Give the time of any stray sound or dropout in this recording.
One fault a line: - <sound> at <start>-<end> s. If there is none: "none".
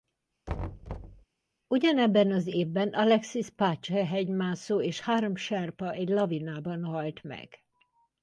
- thud at 0.5-1.2 s